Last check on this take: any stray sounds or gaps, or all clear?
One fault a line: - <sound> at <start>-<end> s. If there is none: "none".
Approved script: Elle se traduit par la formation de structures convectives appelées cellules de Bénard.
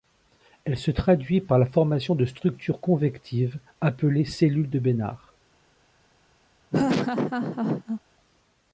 - laugh at 6.7-8.0 s